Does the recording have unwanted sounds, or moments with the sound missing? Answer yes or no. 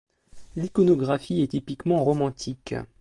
no